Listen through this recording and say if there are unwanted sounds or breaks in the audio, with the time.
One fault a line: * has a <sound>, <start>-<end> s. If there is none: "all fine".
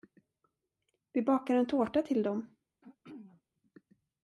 * has a throat clearing, 2.8-3.4 s